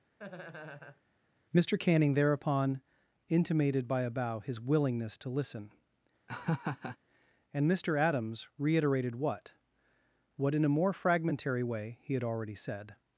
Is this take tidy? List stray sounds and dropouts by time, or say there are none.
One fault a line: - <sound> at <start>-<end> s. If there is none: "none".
- laugh at 0.2-1.0 s
- laugh at 6.3-7.0 s